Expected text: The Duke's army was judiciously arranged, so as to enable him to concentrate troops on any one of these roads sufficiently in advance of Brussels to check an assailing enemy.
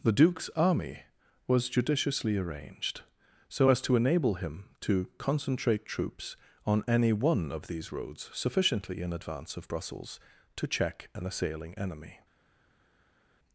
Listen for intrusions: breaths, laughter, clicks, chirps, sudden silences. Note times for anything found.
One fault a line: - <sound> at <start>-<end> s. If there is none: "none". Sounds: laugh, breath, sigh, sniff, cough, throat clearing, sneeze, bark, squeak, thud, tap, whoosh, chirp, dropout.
none